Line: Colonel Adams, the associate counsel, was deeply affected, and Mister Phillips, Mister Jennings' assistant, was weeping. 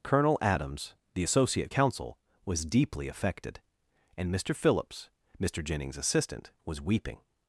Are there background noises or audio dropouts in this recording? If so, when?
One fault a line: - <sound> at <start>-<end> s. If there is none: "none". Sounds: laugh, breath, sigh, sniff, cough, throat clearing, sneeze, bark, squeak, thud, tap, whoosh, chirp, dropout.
none